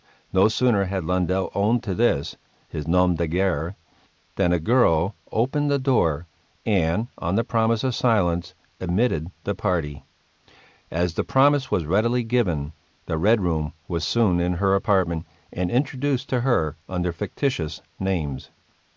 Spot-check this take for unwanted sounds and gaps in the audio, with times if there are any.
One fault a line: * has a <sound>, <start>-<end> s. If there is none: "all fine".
all fine